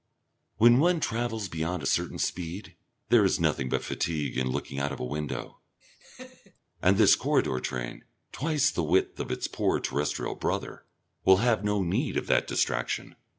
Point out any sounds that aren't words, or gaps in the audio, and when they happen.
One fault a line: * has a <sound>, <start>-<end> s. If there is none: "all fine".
* has a laugh, 5.8-6.6 s